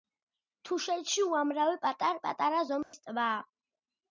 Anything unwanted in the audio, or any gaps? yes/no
yes